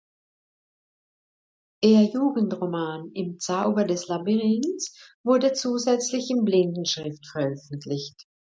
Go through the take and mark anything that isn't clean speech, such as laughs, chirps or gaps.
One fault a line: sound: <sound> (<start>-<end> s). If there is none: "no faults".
no faults